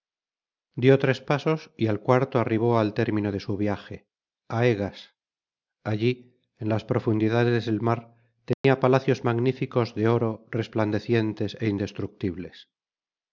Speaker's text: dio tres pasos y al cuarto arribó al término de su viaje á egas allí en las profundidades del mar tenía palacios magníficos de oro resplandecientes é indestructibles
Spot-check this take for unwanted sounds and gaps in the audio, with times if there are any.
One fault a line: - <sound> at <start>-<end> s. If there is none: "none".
- dropout at 8.5-8.6 s